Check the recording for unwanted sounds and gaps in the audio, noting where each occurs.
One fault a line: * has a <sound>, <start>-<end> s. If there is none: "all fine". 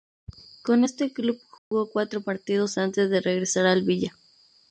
* has a dropout, 1.6-1.7 s